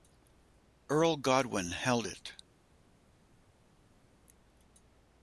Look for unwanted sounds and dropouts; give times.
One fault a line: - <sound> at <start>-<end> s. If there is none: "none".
none